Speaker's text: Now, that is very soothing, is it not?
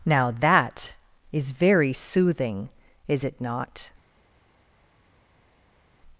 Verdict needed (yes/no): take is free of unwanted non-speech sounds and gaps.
yes